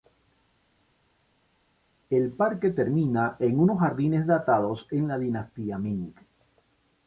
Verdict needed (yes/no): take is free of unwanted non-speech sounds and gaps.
yes